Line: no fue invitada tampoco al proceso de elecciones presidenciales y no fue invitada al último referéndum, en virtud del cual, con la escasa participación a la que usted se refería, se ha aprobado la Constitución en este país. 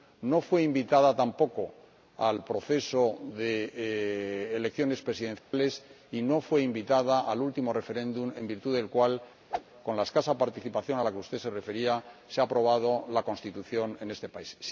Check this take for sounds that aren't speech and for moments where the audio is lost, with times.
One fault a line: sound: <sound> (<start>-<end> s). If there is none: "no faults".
sound: dropout (5.4-5.5 s)
sound: whoosh (9.5-9.6 s)